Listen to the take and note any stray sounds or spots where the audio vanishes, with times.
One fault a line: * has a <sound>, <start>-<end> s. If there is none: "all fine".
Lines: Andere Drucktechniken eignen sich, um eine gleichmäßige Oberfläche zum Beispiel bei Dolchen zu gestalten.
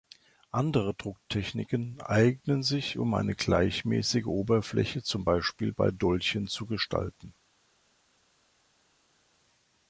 all fine